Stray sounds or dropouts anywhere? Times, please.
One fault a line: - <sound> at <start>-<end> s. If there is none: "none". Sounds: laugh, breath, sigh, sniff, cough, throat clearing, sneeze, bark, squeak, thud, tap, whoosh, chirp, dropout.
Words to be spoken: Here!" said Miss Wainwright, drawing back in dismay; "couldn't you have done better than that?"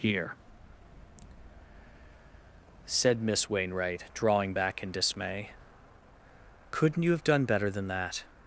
none